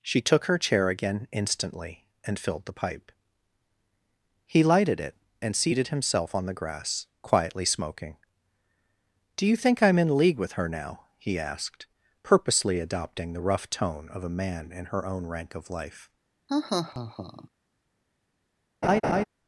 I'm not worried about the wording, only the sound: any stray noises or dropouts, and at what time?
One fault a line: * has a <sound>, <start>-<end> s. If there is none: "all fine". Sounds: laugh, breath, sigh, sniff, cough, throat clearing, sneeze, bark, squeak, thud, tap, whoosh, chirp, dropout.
* has a laugh, 16.5-17.5 s
* has a laugh, 18.8-19.2 s